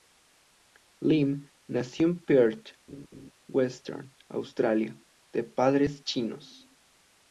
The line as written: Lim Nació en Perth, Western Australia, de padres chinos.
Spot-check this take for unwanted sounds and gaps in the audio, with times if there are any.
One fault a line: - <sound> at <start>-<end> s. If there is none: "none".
- laugh at 2.9-3.3 s